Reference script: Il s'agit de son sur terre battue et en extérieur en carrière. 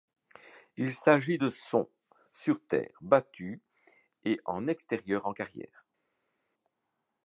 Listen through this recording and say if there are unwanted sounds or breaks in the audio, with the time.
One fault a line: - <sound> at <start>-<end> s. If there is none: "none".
none